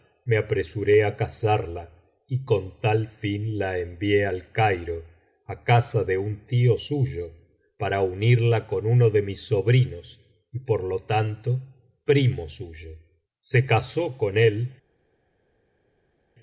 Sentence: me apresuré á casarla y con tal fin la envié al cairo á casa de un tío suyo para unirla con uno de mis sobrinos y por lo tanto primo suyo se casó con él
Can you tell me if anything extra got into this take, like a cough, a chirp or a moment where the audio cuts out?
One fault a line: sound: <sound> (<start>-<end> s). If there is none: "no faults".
no faults